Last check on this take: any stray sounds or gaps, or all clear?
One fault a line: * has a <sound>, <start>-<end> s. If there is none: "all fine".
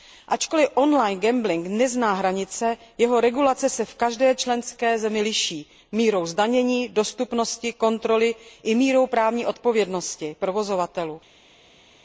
all fine